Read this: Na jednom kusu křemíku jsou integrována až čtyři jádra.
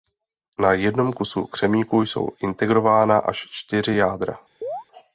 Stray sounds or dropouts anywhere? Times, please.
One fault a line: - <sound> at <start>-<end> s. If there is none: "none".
- chirp at 4.6-4.8 s